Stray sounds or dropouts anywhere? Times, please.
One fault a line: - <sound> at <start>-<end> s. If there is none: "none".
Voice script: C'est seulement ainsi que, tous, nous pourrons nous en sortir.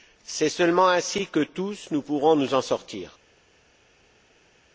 none